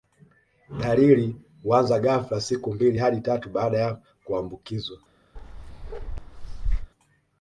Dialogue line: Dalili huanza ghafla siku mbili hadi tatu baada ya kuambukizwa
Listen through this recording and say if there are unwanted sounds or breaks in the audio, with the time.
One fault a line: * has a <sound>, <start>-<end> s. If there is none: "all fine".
* has a bark, 5.4-6.9 s